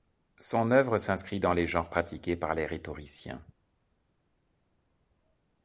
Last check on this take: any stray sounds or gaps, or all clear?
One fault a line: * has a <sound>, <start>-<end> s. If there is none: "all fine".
all fine